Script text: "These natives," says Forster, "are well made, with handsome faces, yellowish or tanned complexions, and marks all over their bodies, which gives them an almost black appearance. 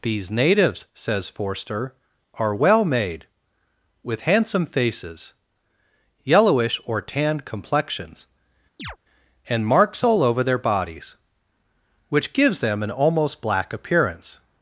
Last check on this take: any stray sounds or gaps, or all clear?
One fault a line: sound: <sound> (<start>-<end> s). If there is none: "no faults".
sound: chirp (8.8-9.0 s)